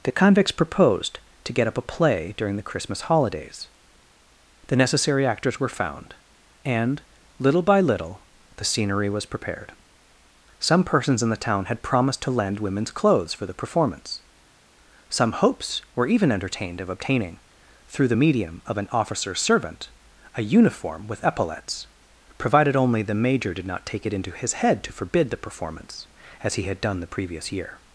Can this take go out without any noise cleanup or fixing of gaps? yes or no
yes